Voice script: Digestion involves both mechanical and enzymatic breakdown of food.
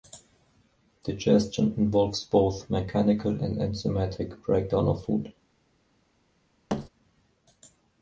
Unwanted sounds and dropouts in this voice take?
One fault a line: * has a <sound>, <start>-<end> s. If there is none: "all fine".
* has a thud, 6.7-6.9 s